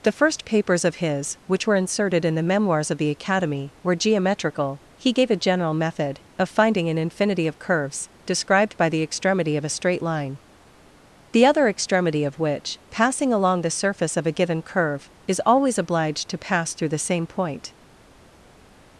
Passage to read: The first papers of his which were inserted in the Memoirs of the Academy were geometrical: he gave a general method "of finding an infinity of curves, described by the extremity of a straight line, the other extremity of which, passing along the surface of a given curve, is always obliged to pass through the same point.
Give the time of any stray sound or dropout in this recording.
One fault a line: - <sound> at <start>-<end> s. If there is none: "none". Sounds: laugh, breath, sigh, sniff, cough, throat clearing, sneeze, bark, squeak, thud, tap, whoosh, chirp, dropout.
none